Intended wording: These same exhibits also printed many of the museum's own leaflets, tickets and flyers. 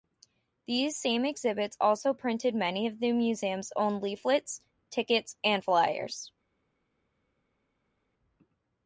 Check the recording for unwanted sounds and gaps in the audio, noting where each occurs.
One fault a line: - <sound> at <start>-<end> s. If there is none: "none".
none